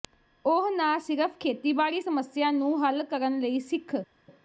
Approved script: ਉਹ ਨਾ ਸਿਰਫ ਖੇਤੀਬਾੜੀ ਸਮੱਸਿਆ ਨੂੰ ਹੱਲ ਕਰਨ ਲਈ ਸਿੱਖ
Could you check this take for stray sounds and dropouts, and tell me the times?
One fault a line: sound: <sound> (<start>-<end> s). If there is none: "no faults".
no faults